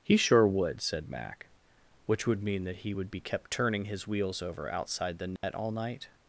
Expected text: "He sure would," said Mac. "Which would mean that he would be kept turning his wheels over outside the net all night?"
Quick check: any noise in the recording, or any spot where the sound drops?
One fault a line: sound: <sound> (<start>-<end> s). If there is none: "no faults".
sound: dropout (5.4-5.4 s)